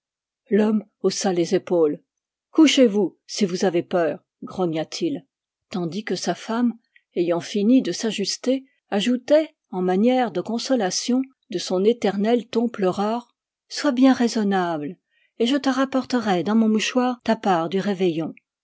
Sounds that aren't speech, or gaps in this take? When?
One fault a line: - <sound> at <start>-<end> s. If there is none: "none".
none